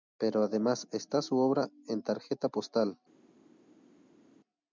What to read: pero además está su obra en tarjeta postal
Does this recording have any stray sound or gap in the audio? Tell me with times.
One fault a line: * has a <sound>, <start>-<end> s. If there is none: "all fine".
all fine